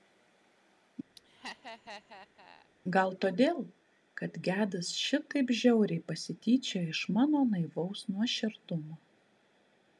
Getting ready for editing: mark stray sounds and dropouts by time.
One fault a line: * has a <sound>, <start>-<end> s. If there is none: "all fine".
* has a laugh, 1.2-2.7 s